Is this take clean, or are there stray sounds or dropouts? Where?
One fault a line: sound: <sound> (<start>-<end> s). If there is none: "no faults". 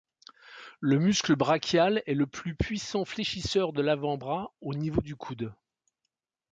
no faults